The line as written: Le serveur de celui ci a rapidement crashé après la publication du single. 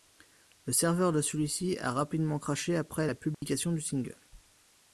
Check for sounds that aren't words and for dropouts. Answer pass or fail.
fail